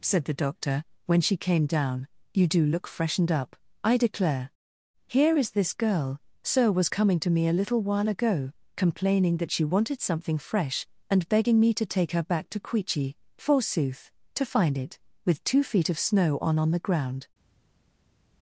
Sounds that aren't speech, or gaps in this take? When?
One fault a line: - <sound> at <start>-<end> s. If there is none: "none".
none